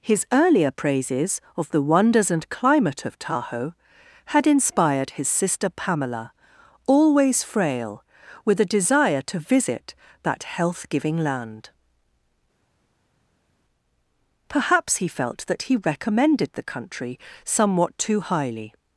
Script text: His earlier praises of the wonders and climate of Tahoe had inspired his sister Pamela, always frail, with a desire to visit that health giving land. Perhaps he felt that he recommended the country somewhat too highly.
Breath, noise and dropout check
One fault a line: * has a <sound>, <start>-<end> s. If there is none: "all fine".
all fine